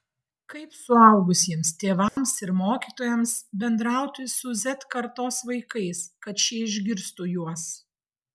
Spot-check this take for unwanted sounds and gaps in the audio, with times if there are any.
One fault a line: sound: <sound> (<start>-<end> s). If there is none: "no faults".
sound: dropout (2.1-2.2 s)